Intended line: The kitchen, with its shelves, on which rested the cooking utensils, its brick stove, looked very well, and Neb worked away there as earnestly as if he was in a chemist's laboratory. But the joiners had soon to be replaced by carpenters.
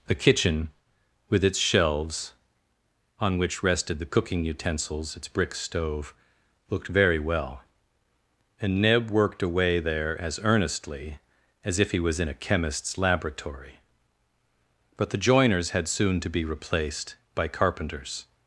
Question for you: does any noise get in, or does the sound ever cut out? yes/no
no